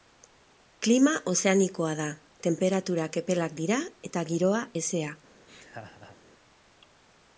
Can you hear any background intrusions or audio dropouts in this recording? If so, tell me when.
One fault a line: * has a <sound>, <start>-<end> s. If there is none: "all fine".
* has a laugh, 5.5-6.2 s